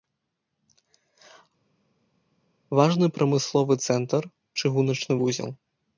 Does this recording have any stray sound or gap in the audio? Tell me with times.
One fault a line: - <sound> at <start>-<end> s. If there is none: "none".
none